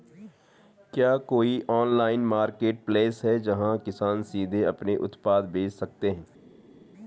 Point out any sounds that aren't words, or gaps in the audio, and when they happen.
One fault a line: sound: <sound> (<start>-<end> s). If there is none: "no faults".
no faults